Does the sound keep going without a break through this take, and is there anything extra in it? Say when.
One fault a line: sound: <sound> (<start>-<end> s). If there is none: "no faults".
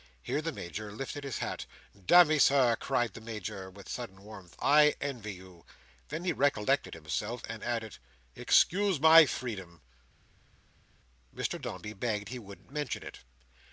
no faults